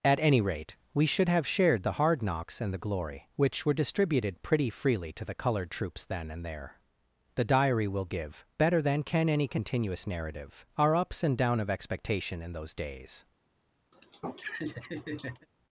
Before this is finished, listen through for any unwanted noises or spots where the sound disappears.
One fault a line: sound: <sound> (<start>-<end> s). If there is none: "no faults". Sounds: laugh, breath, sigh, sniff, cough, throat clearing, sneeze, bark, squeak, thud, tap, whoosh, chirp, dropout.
sound: laugh (13.9-15.5 s)